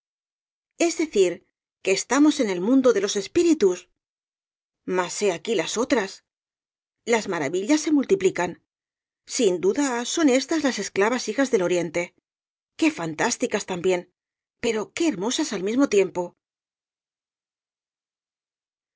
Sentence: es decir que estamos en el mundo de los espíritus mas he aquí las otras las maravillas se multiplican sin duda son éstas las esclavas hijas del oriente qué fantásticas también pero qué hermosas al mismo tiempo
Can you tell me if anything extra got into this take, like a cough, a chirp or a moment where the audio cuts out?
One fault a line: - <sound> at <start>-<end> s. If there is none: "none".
none